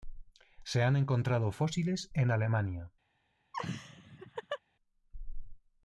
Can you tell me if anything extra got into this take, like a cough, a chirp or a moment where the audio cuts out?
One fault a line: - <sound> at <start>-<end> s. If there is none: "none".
- laugh at 3.5-4.6 s